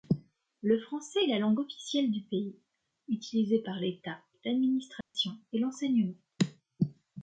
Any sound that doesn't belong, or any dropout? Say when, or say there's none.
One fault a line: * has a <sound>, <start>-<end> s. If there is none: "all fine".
* has a dropout, 5.0-5.1 s